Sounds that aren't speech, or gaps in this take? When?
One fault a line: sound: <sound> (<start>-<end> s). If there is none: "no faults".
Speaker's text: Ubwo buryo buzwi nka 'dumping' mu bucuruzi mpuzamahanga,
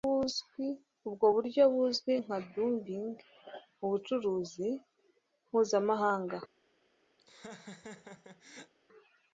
sound: laugh (7.2-8.7 s)